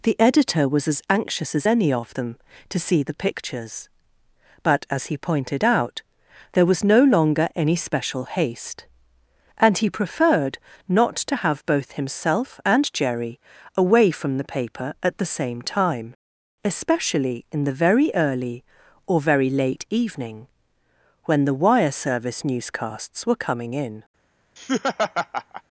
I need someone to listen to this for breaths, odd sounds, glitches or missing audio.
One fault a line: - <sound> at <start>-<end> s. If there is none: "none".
- laugh at 24.6-25.6 s